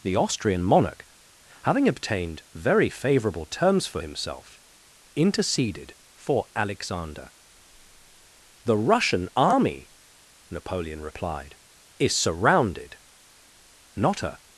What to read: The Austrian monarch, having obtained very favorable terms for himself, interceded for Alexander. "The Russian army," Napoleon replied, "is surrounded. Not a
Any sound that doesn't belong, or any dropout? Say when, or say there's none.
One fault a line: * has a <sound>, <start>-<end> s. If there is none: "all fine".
all fine